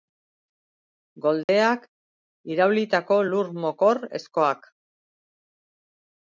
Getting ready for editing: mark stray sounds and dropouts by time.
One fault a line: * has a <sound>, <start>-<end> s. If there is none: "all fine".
* has a dropout, 1.4-1.5 s